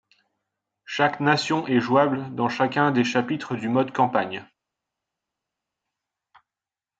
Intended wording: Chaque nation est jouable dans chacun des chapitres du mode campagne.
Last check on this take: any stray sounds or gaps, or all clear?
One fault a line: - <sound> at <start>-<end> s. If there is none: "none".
none